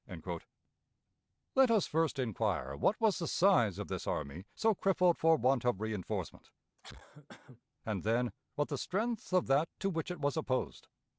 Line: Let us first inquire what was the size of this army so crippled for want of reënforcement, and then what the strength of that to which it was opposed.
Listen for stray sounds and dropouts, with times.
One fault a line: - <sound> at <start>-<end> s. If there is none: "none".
- cough at 6.8-7.6 s